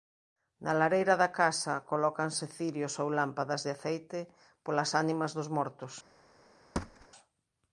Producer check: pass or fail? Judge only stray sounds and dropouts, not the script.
fail